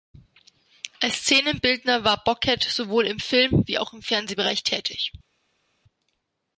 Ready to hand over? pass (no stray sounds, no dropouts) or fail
pass